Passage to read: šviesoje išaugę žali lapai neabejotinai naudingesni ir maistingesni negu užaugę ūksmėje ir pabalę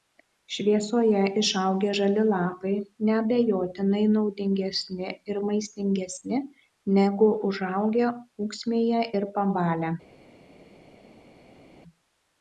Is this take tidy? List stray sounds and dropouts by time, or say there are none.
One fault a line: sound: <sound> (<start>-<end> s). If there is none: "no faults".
no faults